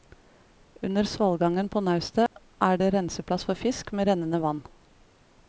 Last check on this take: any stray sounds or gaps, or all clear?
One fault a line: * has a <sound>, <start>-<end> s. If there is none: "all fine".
* has a dropout, 2.3-2.3 s